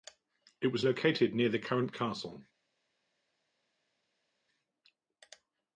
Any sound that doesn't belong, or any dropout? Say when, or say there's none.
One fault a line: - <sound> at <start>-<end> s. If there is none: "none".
none